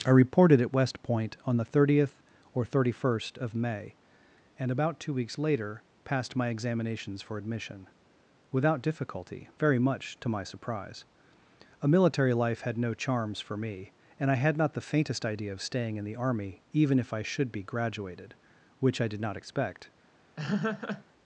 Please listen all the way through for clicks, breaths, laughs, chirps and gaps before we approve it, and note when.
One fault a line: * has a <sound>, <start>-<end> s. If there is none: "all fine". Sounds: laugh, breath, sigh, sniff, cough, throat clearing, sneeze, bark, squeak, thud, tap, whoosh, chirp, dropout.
* has a laugh, 20.4-21.0 s